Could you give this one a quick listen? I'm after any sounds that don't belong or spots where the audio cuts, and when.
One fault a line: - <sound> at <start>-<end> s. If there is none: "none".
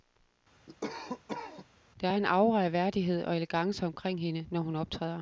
- cough at 0.7-1.7 s